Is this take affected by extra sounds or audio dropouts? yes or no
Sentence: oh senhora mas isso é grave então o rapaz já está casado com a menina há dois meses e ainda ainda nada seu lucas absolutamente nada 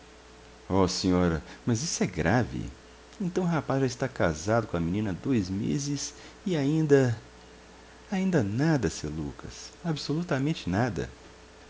no